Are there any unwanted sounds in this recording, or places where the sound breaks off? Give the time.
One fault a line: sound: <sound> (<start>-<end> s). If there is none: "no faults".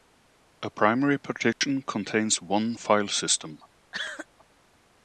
sound: dropout (1.5-1.6 s)
sound: cough (3.9-4.3 s)